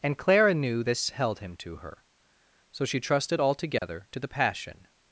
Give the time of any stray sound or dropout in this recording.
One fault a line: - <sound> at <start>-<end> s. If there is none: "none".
- dropout at 3.8-3.8 s